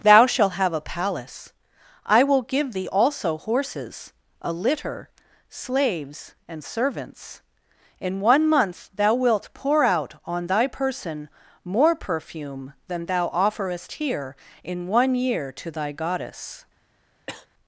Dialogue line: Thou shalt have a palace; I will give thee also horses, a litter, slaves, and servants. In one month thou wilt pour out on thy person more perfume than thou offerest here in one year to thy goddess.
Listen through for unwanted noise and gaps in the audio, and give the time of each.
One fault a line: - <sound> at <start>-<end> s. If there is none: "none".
- cough at 17.3-17.5 s